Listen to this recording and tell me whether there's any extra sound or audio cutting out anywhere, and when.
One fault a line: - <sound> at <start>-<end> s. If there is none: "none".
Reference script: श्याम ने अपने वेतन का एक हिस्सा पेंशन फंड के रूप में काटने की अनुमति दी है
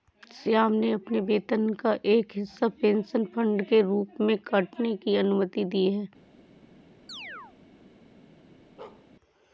- chirp at 7.1-7.6 s
- bark at 8.8-9.1 s